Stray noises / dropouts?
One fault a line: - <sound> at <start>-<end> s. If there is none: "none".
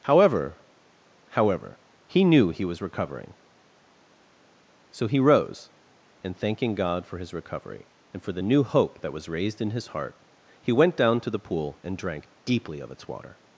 none